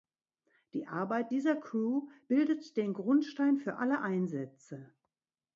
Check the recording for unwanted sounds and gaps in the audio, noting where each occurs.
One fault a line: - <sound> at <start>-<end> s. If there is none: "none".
none